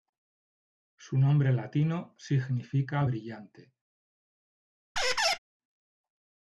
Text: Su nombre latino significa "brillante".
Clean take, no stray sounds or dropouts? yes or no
no